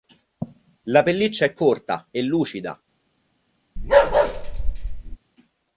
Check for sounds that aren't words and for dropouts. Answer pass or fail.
fail